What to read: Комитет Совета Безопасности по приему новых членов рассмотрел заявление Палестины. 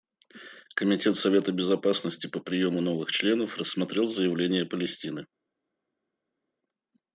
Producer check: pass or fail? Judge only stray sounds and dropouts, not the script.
pass